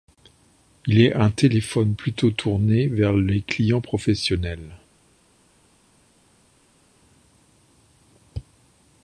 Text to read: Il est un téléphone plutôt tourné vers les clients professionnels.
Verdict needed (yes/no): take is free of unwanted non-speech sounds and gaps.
yes